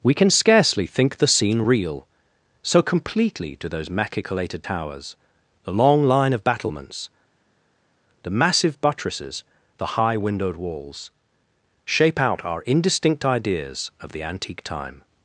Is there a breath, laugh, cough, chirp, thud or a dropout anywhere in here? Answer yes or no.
no